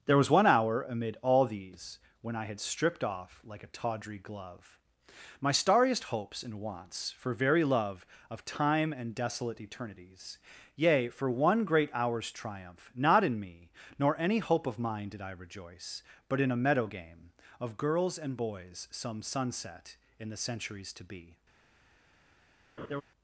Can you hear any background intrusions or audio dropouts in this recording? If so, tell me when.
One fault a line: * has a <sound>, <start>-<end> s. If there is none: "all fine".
* has a laugh, 22.8-23.0 s